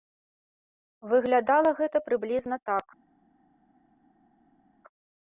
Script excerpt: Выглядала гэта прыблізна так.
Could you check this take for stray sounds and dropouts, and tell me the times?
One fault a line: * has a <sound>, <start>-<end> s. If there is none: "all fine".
all fine